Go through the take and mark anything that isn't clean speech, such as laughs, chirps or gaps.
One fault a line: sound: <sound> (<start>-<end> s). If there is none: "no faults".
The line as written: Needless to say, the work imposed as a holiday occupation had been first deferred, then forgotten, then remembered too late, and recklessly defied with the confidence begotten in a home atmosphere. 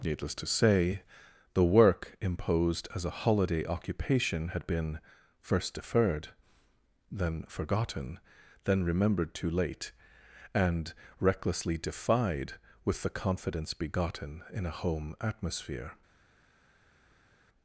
no faults